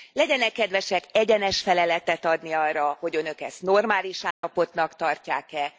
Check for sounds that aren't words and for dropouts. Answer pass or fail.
fail